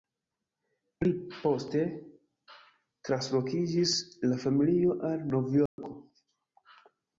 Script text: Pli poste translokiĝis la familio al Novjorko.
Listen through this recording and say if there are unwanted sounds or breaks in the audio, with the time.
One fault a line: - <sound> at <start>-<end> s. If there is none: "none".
- dropout at 5.7-5.8 s